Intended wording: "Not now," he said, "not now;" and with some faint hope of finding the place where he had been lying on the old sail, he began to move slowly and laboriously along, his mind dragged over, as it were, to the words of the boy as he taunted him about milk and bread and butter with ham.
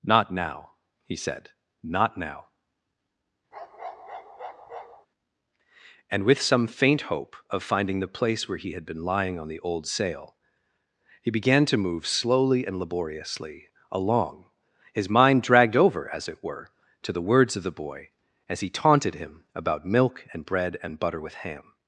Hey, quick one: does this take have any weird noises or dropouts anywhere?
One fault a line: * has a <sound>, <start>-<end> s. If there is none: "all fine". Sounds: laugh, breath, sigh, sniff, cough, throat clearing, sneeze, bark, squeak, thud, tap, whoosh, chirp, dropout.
* has a bark, 3.5-5.1 s